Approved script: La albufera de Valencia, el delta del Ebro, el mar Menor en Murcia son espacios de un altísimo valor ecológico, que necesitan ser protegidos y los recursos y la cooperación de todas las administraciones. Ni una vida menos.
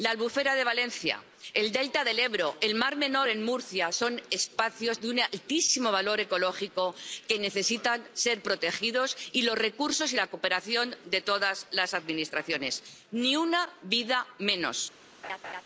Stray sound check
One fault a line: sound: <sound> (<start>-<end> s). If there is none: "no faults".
sound: laugh (15.2-15.6 s)